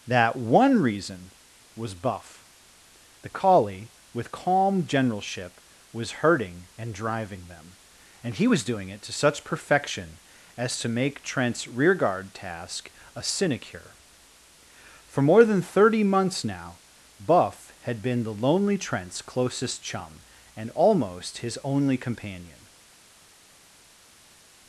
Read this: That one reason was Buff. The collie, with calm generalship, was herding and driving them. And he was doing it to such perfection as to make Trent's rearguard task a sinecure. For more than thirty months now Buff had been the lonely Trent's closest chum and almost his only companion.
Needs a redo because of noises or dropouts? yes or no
no